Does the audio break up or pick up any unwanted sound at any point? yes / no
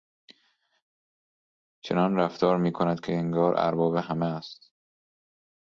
no